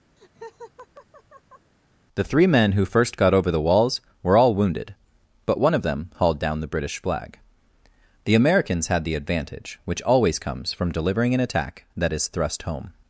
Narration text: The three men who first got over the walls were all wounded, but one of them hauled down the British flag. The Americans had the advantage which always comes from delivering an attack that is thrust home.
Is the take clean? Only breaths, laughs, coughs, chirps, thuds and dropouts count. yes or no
no